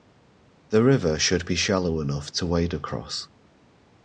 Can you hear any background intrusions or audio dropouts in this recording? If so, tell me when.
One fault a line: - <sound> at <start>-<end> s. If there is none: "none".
none